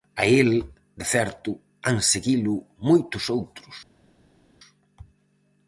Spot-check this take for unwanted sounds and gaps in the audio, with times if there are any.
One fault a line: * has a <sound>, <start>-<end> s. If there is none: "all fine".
all fine